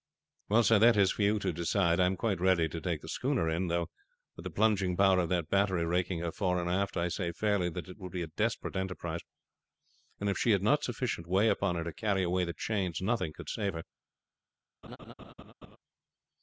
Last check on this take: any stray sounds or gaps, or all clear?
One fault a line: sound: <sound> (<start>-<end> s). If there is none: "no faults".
sound: laugh (14.8-15.8 s)